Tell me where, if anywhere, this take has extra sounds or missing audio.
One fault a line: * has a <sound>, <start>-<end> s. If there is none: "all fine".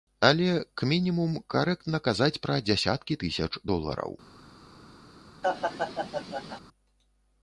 * has a laugh, 5.4-6.6 s